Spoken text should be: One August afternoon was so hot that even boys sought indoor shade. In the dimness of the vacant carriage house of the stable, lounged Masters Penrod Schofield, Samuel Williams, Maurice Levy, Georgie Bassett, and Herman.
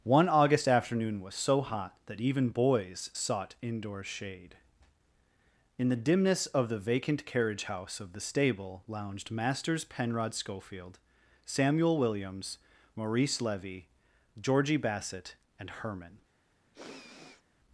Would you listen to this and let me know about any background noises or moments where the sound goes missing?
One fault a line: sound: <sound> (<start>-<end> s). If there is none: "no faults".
sound: sniff (16.7-17.4 s)